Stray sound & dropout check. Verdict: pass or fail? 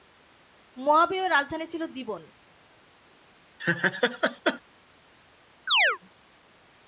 fail